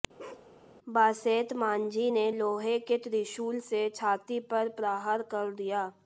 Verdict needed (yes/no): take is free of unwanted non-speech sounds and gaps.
no